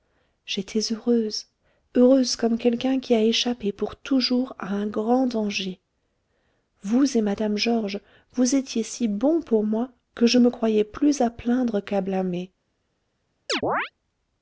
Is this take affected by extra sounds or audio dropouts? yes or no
yes